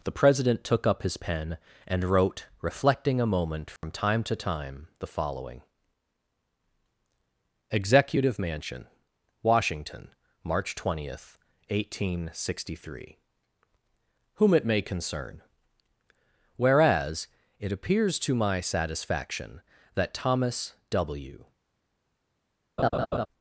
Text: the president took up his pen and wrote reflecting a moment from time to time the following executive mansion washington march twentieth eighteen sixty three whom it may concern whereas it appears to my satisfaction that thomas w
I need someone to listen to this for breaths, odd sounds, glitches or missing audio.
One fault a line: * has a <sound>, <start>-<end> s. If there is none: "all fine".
* has a dropout, 3.8-3.8 s
* has a laugh, 22.8-23.3 s